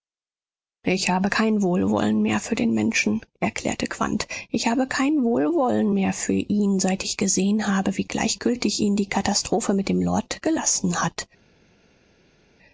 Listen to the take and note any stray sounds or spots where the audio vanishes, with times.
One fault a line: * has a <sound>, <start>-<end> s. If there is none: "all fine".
all fine